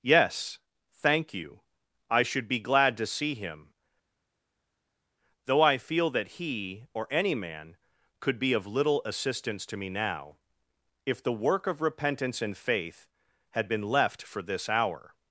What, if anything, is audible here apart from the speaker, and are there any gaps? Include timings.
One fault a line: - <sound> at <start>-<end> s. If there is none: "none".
none